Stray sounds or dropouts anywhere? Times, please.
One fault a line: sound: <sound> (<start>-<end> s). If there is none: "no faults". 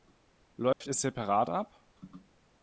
sound: dropout (0.7-0.8 s)